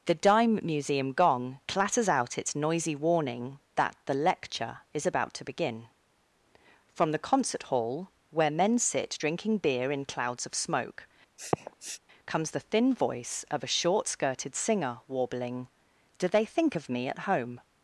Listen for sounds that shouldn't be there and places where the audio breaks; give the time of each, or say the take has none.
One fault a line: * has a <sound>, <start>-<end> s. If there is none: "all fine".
* has a sniff, 11.4-12.0 s